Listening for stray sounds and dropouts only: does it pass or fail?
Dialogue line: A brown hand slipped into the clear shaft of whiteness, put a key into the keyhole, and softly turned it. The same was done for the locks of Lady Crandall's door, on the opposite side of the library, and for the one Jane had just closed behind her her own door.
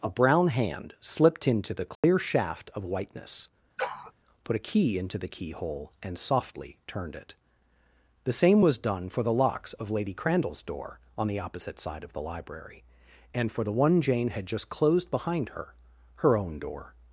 fail